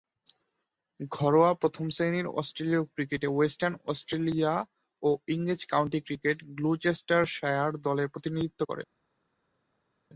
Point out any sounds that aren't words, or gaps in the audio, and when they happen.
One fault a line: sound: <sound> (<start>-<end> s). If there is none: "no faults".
no faults